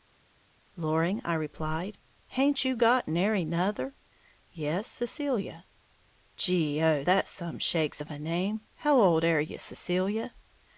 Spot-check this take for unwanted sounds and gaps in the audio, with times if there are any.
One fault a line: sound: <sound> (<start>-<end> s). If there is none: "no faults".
no faults